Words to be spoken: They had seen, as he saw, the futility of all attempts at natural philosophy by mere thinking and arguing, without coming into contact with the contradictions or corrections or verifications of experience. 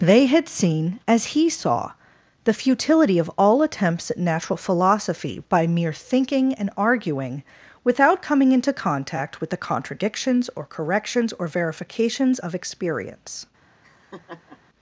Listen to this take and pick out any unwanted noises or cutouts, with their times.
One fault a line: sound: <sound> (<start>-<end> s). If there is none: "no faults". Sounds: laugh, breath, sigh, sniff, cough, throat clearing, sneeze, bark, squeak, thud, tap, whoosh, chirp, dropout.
sound: laugh (13.8-14.6 s)